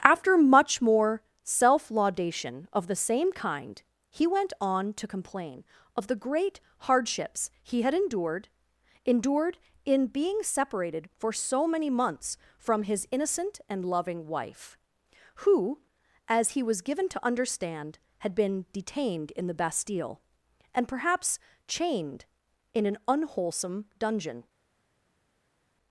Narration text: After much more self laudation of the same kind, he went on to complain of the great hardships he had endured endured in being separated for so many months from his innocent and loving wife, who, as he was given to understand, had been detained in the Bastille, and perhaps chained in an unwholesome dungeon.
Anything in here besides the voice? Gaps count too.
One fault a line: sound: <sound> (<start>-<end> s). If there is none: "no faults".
no faults